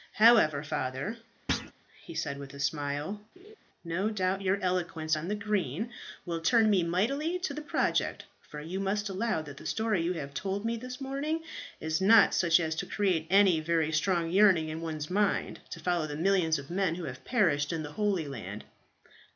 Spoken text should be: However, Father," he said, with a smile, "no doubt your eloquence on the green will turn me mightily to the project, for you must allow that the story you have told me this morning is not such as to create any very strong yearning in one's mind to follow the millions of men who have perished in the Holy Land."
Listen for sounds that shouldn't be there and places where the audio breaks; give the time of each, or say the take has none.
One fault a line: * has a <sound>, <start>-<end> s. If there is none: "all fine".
* has a thud, 1.5-1.7 s
* has a laugh, 3.4-3.6 s